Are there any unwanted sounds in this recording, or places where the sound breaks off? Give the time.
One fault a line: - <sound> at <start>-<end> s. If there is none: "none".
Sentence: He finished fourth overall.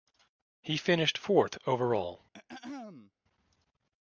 - throat clearing at 2.3-3.1 s